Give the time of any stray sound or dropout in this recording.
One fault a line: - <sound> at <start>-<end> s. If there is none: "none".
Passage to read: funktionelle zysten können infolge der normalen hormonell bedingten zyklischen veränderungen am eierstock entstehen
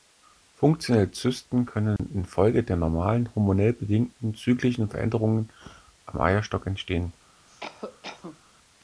- dropout at 2.0-2.0 s
- cough at 7.5-8.4 s